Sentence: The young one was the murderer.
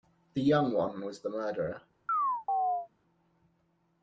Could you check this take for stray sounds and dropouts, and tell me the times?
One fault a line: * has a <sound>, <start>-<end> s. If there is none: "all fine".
* has a chirp, 2.1-2.9 s